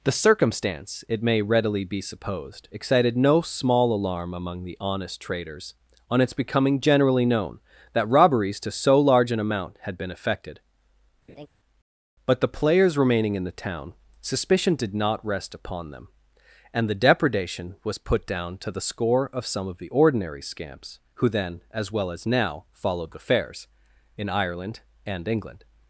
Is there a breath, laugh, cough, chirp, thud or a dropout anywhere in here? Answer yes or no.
yes